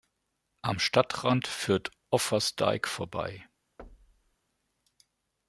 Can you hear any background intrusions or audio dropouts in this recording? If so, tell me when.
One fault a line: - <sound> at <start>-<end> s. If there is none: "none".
- thud at 3.8-4.4 s